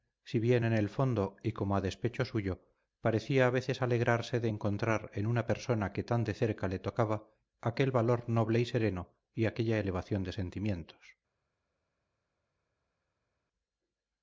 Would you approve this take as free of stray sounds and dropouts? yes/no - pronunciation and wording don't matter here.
yes